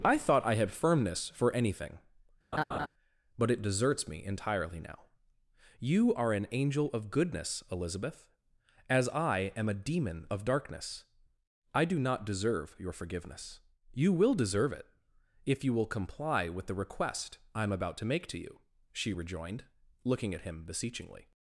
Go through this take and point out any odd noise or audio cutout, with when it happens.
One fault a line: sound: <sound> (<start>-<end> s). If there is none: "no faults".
sound: laugh (2.5-2.9 s)